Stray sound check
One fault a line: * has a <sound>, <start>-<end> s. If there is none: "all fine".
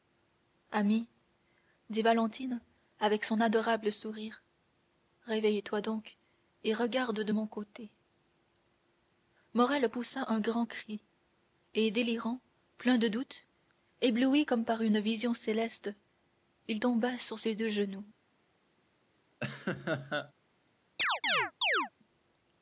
* has a laugh, 19.4-20.3 s
* has a chirp, 21.0-21.9 s